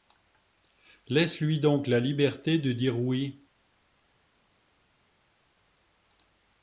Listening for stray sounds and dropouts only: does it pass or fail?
pass